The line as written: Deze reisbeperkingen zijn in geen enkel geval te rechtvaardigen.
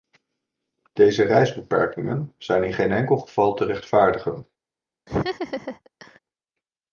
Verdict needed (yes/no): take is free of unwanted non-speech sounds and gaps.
no